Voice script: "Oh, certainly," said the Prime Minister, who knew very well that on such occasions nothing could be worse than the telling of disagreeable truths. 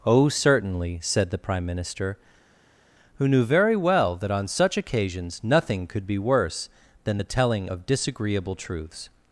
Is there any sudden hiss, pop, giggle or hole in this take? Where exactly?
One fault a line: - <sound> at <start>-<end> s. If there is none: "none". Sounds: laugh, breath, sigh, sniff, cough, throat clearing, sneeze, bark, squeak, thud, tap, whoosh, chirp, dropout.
none